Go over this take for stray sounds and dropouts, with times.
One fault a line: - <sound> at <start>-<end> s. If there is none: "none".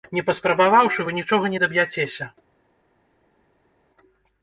none